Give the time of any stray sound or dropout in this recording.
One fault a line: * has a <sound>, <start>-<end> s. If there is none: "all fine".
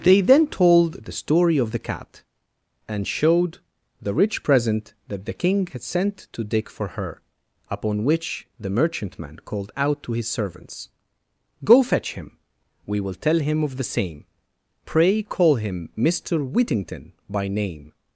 all fine